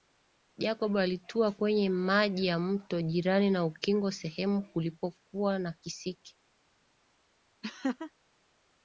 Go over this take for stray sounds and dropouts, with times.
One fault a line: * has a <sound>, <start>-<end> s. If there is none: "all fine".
* has a laugh, 7.6-8.1 s